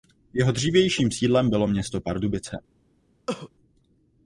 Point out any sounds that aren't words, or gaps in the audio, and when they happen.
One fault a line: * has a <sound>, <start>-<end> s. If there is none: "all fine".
* has a cough, 3.3-3.5 s